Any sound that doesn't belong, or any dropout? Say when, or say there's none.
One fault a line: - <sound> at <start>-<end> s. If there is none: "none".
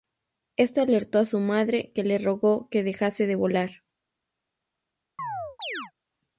- chirp at 5.2-5.9 s